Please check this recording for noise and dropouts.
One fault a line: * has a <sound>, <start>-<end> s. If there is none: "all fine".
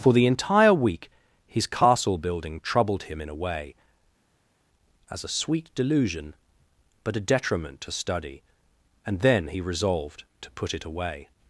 all fine